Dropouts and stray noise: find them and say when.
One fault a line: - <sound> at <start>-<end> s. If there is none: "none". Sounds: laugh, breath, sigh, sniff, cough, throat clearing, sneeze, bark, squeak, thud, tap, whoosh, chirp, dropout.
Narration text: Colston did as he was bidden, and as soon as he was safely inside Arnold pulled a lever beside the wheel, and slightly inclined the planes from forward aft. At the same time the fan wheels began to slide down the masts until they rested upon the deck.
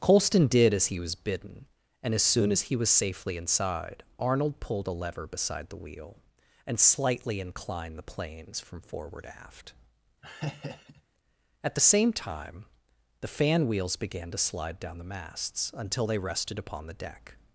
- laugh at 10.2-11.0 s